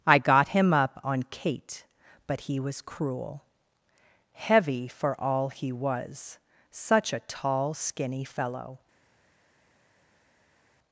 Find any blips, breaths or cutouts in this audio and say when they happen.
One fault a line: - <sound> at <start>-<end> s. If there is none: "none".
none